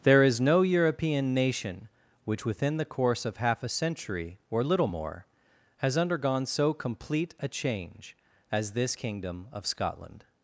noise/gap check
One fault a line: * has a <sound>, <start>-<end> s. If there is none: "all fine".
all fine